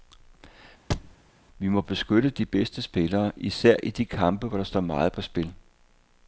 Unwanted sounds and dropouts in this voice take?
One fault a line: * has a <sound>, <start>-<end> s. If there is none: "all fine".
* has a thud, 0.9-1.2 s